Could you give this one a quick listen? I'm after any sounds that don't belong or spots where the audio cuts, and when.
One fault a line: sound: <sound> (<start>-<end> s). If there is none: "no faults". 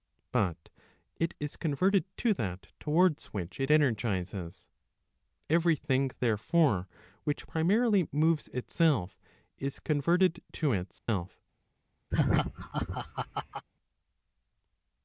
sound: dropout (11.0-11.1 s)
sound: laugh (12.1-13.7 s)